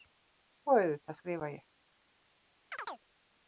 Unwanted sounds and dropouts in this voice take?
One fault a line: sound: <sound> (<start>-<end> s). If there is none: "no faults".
sound: chirp (2.7-3.0 s)